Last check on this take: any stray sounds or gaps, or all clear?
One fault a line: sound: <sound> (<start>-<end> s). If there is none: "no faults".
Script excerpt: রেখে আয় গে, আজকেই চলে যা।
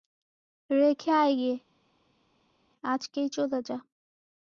no faults